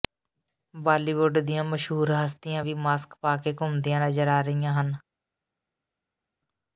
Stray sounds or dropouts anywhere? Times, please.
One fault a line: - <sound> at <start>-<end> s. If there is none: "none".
none